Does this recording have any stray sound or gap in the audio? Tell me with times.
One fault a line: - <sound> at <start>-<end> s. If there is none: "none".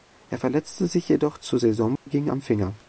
- dropout at 2.0-2.1 s